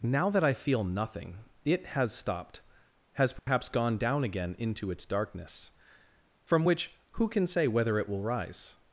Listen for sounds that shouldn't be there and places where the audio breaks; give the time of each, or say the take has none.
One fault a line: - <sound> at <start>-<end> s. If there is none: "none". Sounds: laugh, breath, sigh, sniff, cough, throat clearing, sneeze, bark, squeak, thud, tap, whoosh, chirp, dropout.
- dropout at 3.4-3.5 s